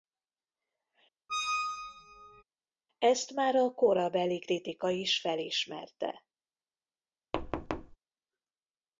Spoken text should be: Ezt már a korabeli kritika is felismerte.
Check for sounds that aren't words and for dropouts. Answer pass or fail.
fail